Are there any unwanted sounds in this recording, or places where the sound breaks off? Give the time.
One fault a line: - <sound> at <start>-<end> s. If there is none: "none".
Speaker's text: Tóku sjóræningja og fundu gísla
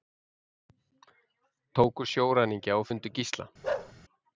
- bark at 3.6-3.9 s